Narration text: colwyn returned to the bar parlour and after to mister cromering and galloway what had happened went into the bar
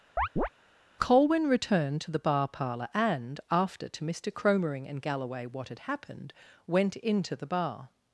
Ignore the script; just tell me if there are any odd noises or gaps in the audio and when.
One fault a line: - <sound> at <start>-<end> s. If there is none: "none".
- chirp at 0.2-0.5 s